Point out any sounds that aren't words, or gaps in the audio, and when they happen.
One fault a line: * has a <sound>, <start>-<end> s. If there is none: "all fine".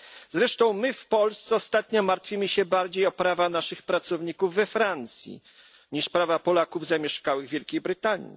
all fine